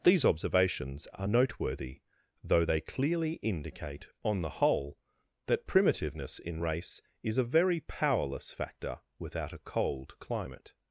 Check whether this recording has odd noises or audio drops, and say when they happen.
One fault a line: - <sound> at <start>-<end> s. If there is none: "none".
none